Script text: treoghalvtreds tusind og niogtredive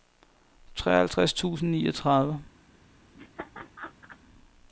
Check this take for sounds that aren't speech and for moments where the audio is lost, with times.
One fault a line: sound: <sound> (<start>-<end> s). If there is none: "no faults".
sound: laugh (3.1-4.2 s)